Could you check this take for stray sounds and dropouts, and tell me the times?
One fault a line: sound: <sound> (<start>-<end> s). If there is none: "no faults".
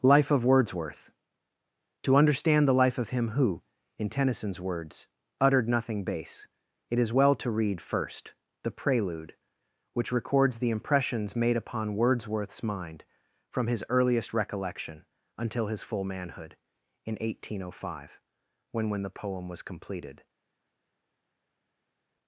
no faults